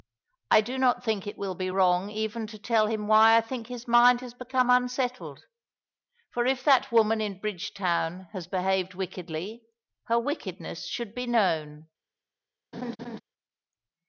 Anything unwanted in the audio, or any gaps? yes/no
yes